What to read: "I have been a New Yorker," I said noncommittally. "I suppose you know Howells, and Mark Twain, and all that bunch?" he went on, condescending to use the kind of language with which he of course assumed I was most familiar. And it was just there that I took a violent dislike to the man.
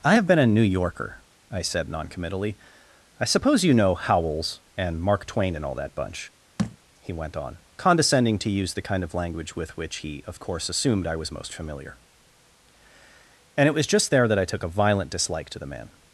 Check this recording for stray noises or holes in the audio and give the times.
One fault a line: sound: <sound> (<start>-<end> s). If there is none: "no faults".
sound: thud (6.6-6.8 s)